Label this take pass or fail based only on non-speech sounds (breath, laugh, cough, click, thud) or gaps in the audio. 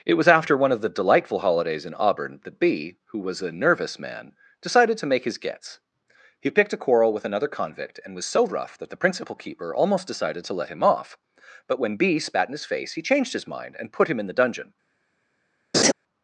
fail